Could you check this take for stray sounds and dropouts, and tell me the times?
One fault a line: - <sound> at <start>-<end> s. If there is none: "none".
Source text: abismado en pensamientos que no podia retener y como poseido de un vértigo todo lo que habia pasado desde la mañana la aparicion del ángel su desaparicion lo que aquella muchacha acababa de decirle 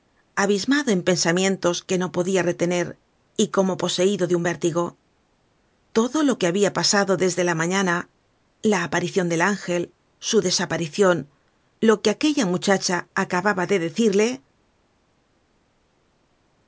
none